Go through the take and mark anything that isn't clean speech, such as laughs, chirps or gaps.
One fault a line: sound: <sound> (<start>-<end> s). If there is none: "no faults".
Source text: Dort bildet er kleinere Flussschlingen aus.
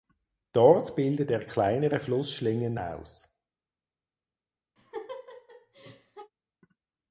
sound: laugh (4.8-6.3 s)